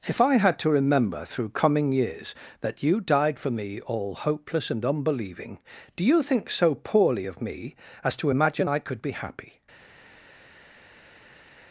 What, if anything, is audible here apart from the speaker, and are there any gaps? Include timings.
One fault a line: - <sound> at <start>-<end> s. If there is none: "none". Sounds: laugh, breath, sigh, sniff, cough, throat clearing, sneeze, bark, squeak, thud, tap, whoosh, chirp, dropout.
none